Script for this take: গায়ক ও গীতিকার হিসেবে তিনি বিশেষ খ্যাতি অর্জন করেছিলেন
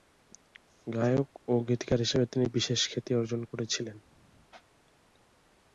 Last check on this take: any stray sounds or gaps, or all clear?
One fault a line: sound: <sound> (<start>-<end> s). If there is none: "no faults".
no faults